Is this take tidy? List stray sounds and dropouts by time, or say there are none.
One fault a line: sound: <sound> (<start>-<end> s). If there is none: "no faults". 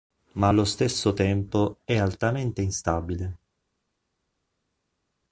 no faults